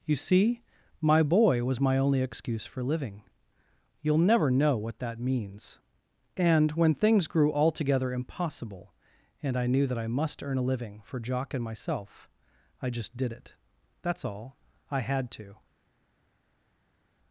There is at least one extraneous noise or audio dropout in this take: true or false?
false